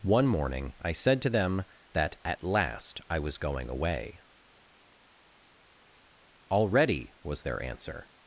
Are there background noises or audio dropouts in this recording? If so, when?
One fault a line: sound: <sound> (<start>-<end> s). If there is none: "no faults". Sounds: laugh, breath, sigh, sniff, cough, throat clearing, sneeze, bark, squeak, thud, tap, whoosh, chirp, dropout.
no faults